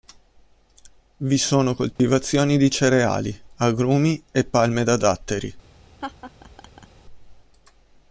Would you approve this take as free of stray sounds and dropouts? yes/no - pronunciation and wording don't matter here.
no